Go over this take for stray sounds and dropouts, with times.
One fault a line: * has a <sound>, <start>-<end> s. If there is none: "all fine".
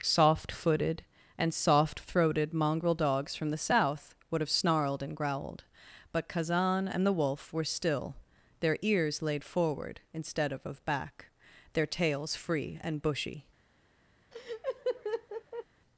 * has a laugh, 14.3-15.7 s